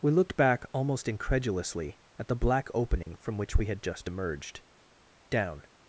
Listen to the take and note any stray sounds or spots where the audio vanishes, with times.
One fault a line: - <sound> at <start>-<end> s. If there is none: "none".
- dropout at 3.0-3.1 s